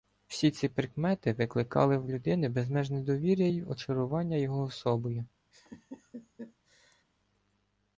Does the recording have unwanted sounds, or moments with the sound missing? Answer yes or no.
yes